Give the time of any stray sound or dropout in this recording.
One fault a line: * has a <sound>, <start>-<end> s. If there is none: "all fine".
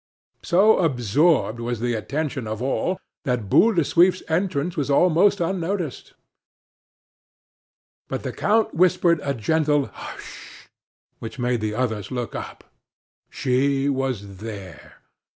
all fine